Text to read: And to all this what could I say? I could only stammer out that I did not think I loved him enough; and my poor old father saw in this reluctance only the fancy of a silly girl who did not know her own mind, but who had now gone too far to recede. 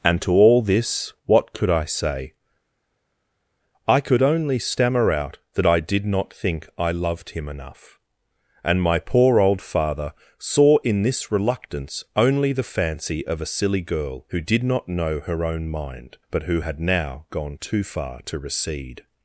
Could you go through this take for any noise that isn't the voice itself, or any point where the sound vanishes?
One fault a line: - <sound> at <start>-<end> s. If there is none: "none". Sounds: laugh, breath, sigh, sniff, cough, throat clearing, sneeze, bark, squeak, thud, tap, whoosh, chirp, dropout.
none